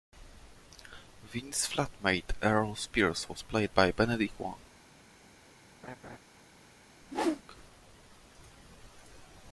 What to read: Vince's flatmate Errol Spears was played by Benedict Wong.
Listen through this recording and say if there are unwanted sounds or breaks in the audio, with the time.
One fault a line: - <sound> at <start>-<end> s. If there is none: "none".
- laugh at 5.8-6.2 s
- whoosh at 7.0-7.4 s